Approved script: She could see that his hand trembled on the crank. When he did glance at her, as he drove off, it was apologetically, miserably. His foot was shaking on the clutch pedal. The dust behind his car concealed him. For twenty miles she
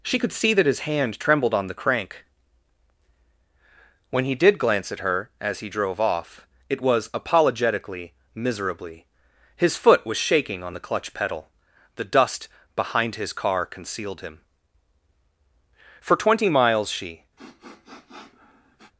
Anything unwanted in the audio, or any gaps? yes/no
yes